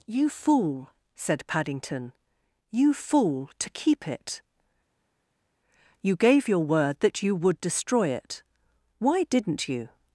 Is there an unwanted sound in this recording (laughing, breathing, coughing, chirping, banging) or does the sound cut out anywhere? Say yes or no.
no